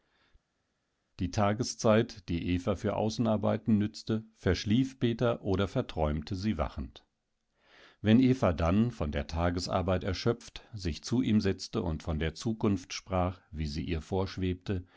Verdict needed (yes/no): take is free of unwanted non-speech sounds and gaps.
yes